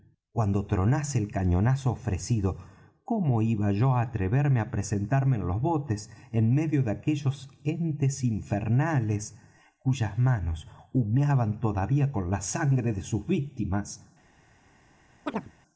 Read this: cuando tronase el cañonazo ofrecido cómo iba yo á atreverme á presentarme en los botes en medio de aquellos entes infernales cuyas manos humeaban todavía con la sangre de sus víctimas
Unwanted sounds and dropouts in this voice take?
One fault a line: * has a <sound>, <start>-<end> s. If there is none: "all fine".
* has a chirp, 15.3-15.5 s